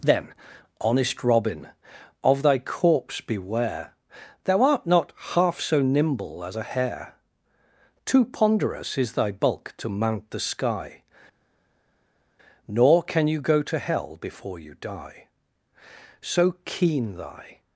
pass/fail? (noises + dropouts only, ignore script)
pass